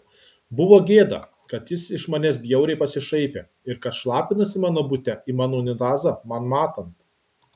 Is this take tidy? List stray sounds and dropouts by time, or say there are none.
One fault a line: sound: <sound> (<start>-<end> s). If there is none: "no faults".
no faults